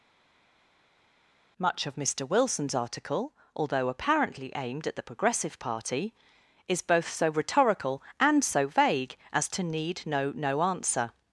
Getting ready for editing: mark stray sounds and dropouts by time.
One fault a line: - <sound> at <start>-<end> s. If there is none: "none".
none